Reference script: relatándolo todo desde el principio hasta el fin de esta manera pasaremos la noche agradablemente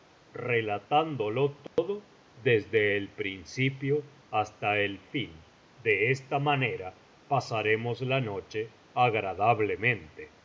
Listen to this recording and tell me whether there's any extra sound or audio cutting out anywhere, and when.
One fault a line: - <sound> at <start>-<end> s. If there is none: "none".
- dropout at 1.7-1.8 s